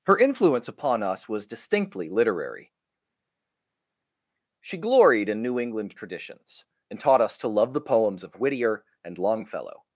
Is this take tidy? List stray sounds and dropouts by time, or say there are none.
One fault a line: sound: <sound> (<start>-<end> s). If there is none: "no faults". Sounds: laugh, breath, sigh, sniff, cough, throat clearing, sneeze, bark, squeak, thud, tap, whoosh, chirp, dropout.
no faults